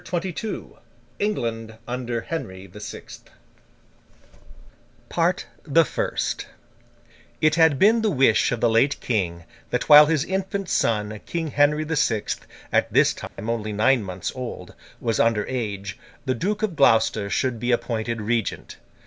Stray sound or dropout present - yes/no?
yes